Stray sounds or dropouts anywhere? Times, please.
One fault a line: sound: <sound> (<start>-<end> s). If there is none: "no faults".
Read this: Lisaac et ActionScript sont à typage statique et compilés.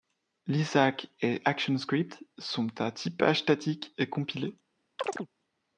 sound: chirp (5.0-5.3 s)